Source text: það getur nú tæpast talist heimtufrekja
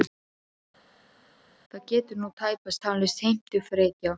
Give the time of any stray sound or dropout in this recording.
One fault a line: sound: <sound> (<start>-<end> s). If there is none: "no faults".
no faults